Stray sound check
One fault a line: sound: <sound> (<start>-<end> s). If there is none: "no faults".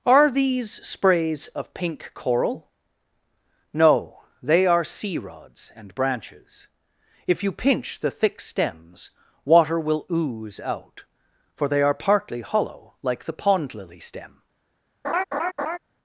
sound: laugh (15.0-15.8 s)